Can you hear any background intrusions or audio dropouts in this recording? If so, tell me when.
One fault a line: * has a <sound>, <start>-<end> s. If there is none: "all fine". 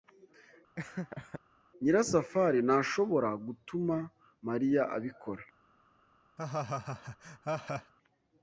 * has a laugh, 0.8-1.4 s
* has a laugh, 6.4-7.9 s